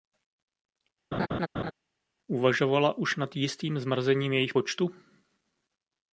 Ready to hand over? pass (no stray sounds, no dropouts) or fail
fail